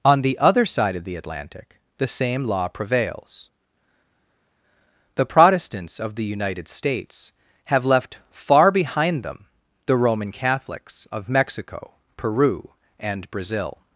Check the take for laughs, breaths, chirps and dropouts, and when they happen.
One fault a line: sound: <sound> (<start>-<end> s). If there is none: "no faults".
no faults